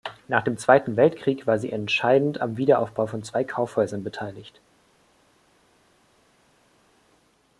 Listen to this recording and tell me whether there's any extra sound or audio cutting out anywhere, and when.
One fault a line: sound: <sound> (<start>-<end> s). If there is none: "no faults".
no faults